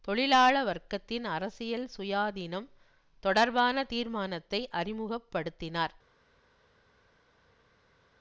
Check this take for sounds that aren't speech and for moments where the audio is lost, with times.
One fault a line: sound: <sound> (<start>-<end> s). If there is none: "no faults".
no faults